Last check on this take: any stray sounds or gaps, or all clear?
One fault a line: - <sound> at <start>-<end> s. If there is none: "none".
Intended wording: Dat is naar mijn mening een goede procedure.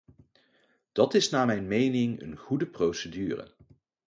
none